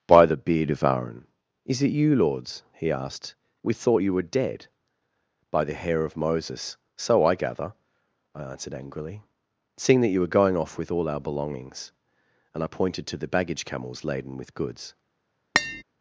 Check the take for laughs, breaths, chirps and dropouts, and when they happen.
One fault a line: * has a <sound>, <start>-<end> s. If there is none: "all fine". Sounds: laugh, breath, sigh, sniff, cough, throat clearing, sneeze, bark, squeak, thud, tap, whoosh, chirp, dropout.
* has a tap, 15.5-15.8 s